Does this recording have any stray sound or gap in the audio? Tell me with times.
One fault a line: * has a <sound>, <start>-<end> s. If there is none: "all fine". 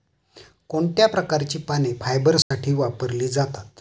* has a dropout, 2.4-2.5 s